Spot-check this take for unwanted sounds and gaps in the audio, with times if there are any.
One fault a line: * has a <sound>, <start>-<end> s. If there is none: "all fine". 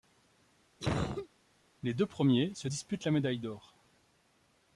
* has a cough, 0.8-1.3 s